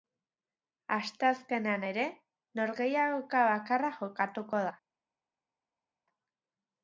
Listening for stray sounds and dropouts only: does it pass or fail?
pass